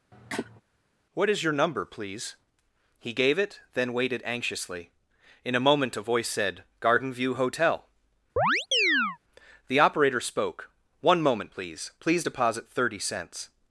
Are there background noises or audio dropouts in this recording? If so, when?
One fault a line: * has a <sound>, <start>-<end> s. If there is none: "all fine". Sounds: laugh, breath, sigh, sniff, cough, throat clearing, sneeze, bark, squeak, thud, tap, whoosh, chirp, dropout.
* has a cough, 0.1-0.6 s
* has a chirp, 8.4-9.2 s